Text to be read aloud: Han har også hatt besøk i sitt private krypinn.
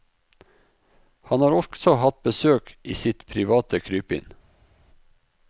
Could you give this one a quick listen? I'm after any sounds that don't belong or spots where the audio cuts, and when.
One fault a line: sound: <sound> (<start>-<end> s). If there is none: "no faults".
no faults